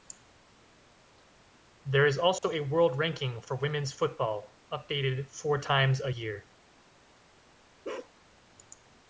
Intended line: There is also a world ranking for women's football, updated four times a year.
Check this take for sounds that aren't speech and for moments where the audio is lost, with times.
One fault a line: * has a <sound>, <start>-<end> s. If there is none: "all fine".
* has a dropout, 2.4-2.4 s
* has a bark, 7.8-8.1 s